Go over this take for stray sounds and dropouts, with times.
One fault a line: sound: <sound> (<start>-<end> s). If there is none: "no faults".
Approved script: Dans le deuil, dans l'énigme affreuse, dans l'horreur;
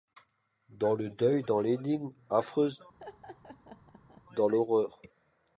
sound: laugh (3.0-4.2 s)